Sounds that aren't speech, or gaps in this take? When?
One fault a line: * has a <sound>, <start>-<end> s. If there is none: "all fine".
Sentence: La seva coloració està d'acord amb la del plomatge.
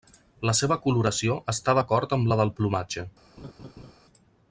* has a laugh, 3.4-3.9 s